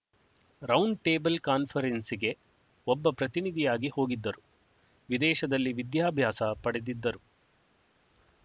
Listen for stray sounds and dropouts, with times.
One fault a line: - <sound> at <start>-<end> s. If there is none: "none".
none